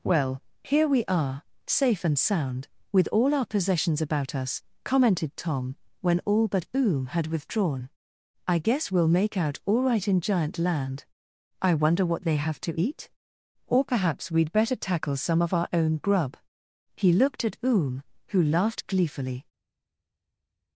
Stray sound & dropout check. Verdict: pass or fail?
pass